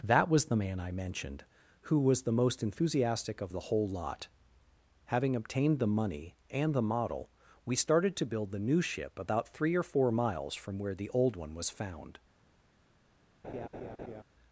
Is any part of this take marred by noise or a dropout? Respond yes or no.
yes